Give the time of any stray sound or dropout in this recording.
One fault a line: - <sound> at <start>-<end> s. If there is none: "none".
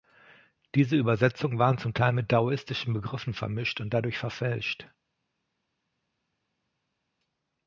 none